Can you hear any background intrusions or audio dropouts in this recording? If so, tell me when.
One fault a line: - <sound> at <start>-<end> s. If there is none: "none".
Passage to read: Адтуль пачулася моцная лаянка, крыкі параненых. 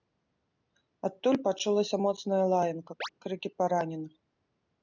- chirp at 3.0-3.1 s